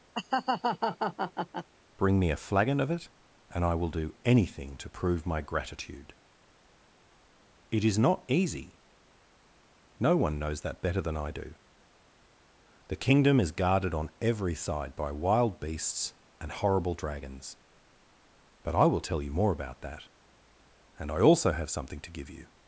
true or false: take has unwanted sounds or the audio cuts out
true